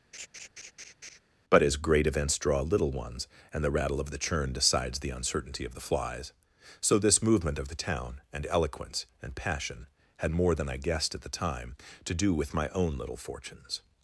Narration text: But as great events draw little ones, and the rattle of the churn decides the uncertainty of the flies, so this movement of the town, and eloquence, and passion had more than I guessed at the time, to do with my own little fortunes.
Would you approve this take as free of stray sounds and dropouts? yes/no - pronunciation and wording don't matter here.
no